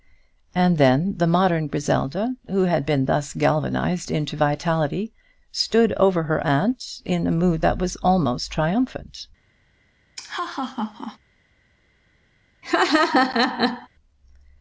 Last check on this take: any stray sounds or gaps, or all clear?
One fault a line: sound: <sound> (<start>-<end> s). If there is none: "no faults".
sound: laugh (10.2-11.2 s)
sound: laugh (12.6-13.9 s)